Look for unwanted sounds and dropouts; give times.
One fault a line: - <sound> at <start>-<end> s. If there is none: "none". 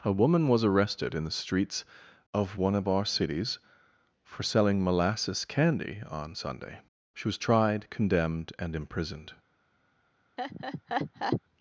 - laugh at 10.4-11.4 s